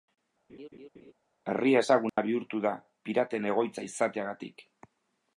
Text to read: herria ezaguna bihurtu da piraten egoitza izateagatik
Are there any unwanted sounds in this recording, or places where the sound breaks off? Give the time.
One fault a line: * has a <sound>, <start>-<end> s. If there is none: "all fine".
* has a laugh, 0.5-1.1 s
* has a dropout, 2.1-2.2 s